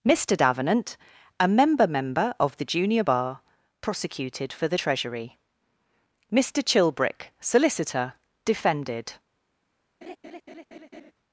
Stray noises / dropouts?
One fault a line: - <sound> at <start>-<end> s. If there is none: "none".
- laugh at 10.0-11.1 s